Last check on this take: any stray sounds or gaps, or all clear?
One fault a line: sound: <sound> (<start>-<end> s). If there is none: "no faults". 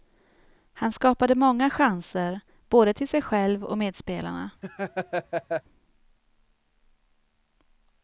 sound: laugh (4.6-5.6 s)